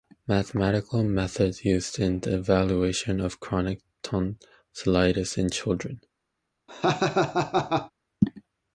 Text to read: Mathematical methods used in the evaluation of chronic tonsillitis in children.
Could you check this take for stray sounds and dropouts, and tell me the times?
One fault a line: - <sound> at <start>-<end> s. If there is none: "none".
- laugh at 6.7-7.9 s